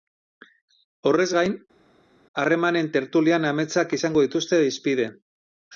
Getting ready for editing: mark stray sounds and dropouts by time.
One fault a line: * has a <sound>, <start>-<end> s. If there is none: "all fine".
all fine